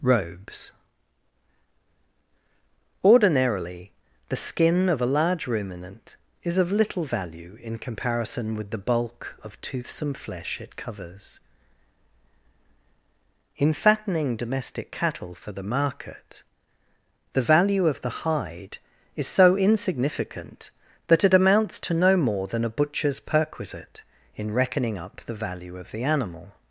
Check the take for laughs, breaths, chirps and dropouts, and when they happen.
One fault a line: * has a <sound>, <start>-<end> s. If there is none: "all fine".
all fine